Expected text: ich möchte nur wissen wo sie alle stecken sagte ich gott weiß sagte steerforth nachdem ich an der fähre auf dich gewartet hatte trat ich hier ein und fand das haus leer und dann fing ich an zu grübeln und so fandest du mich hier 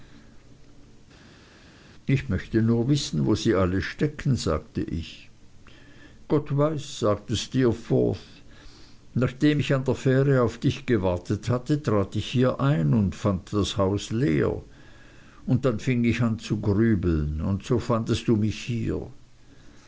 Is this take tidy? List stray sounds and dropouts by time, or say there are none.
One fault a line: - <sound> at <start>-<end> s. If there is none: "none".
none